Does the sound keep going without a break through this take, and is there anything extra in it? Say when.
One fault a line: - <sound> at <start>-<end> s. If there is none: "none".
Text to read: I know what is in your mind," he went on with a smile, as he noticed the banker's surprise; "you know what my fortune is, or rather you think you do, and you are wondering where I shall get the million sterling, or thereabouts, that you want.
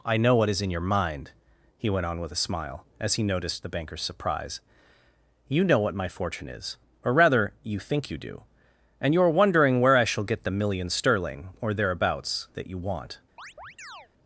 - chirp at 13.4-14.1 s